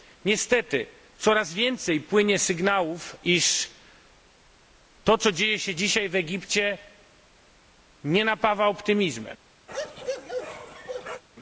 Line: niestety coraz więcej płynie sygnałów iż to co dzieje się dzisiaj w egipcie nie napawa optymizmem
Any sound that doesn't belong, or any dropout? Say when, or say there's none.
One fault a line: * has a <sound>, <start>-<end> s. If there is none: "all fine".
* has a bark, 9.7-11.2 s